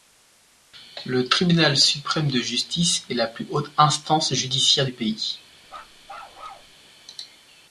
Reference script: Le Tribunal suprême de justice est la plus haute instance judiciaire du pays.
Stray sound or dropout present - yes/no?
yes